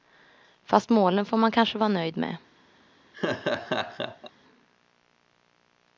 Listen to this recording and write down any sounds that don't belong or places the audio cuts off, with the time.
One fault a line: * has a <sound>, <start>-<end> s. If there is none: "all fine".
* has a laugh, 3.1-4.3 s